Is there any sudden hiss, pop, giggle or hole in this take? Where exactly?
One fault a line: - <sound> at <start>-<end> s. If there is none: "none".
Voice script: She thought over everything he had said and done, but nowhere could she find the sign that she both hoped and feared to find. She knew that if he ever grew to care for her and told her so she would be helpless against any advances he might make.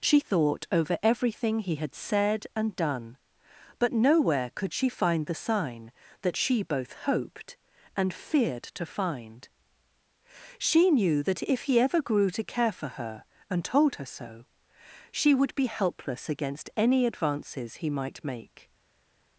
none